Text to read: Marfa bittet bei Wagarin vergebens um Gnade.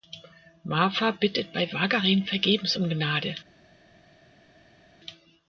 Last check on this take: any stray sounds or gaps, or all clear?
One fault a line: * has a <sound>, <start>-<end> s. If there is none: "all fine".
all fine